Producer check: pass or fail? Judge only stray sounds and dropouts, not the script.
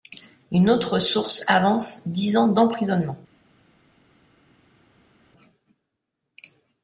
pass